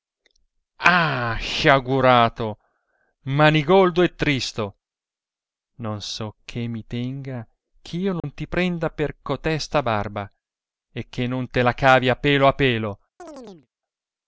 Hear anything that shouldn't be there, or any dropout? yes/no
yes